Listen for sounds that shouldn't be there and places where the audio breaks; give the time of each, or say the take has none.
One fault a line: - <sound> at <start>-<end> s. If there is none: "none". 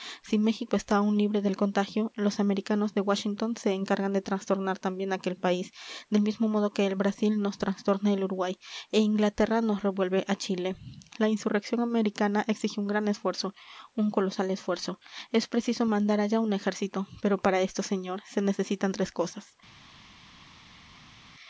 none